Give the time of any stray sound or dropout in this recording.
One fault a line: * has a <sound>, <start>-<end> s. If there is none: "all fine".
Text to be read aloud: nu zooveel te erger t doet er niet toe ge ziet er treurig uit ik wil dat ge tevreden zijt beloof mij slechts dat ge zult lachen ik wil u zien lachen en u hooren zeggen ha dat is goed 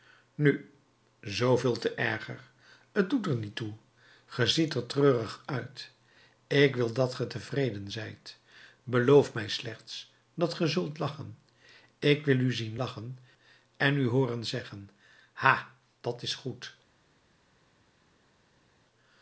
all fine